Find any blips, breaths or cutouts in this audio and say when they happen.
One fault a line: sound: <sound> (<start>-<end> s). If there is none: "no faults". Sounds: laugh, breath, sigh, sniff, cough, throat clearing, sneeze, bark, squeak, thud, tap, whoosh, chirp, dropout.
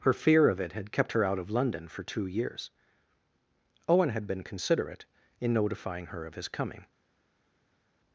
no faults